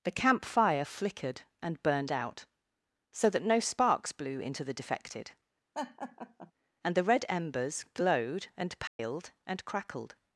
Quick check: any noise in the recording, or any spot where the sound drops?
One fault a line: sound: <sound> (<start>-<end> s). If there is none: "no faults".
sound: laugh (5.7-6.5 s)
sound: dropout (8.9-9.0 s)